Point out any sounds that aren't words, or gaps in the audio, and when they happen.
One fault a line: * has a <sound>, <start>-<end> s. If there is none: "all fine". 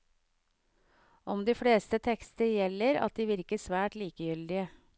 all fine